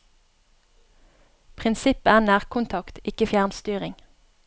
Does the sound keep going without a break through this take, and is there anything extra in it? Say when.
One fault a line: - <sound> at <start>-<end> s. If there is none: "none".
none